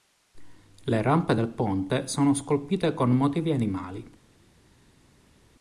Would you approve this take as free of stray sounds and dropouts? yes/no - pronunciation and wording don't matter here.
yes